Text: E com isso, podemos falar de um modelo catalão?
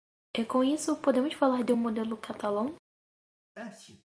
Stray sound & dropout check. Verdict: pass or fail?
fail